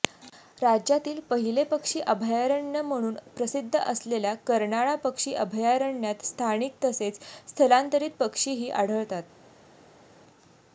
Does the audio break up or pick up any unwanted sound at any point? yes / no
no